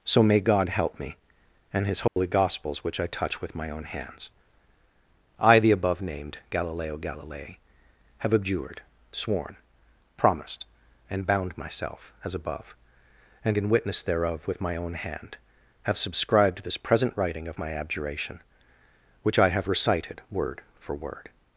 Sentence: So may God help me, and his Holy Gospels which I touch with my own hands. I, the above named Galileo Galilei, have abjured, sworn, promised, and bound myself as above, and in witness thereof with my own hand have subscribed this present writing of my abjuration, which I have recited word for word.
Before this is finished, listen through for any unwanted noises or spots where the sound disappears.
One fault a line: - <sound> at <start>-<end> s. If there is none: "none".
- dropout at 2.1-2.2 s